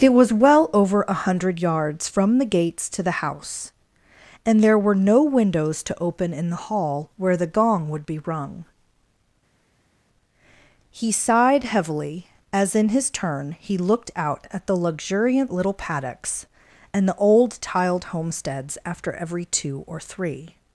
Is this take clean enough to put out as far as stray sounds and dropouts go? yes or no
yes